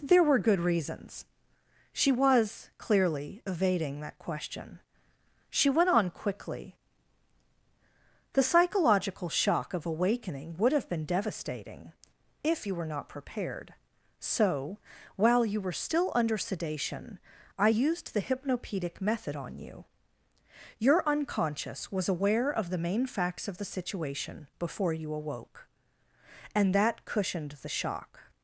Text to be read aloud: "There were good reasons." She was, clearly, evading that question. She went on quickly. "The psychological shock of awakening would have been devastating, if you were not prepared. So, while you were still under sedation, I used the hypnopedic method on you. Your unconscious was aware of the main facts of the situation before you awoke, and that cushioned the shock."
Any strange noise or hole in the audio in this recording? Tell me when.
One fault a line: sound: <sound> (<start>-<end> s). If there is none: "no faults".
no faults